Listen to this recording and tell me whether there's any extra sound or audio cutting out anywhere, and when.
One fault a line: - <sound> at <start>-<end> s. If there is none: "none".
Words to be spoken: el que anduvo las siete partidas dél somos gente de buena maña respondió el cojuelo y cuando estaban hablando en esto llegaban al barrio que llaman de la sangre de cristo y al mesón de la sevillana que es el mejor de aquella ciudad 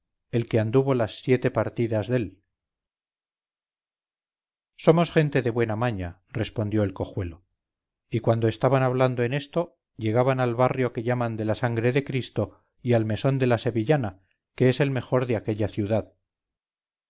none